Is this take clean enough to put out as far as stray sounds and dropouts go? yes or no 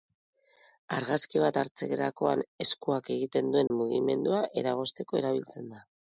no